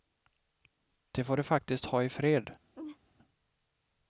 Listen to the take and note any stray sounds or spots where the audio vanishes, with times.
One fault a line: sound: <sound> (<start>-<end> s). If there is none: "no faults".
sound: laugh (2.7-3.0 s)